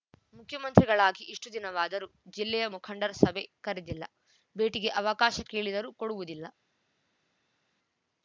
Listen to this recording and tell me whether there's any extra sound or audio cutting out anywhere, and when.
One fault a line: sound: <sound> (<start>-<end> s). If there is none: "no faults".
no faults